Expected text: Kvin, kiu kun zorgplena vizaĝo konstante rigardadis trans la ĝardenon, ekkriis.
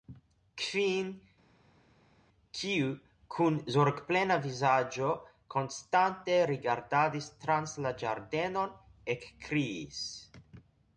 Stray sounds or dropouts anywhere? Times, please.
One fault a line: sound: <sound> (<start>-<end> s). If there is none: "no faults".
no faults